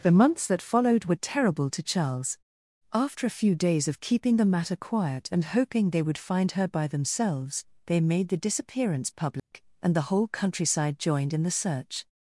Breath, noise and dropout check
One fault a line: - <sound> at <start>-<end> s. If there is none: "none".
- dropout at 9.4-9.5 s